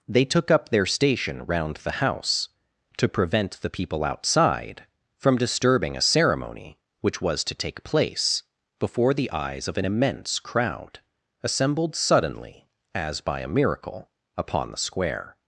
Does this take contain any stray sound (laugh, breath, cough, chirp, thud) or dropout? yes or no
no